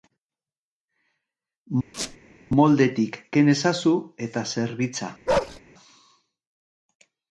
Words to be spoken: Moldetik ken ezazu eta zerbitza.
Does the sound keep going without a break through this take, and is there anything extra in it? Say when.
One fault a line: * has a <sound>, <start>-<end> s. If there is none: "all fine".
* has a squeak, 1.9-2.2 s
* has a bark, 5.3-5.6 s